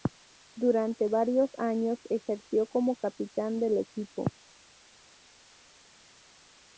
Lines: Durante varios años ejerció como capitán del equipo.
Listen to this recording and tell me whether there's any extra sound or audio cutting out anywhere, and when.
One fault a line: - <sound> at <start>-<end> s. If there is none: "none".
none